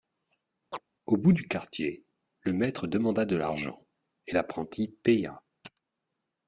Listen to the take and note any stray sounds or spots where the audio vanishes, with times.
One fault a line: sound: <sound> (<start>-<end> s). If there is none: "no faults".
sound: chirp (0.7-0.8 s)